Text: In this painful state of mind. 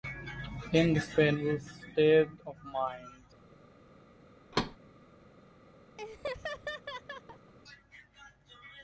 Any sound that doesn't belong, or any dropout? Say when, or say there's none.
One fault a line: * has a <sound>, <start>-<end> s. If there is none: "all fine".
* has a thud, 4.5-4.8 s
* has a laugh, 6.0-7.5 s